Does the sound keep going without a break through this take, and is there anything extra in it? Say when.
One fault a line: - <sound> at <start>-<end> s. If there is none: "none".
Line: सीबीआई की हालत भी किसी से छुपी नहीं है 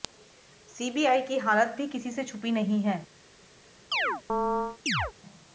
- chirp at 3.9-5.1 s